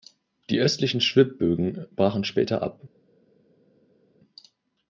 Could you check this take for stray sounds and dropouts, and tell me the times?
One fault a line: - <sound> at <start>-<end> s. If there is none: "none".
none